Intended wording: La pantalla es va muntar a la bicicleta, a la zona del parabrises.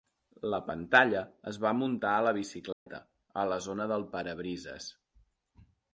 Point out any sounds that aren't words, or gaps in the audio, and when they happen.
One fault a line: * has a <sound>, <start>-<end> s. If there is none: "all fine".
* has a dropout, 2.7-2.9 s